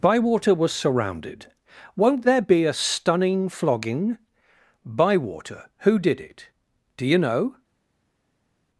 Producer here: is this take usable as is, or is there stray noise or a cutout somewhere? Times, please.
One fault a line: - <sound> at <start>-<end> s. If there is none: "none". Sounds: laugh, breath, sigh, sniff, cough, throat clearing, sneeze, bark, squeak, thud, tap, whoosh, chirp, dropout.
none